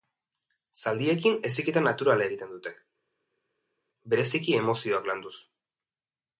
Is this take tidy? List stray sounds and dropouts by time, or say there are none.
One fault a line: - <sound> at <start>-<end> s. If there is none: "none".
none